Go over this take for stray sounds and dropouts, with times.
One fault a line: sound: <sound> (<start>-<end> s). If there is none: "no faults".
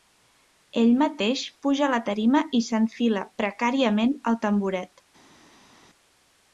no faults